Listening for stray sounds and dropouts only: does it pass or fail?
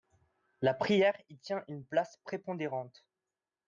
pass